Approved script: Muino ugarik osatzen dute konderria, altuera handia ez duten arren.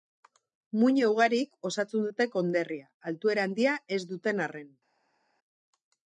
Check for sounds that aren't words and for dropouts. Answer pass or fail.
pass